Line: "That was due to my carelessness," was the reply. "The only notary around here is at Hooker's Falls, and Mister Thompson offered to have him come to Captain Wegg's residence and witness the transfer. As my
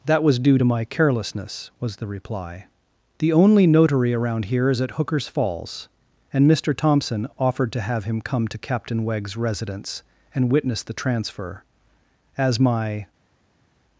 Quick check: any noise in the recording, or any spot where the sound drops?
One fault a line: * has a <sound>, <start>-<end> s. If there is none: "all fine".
all fine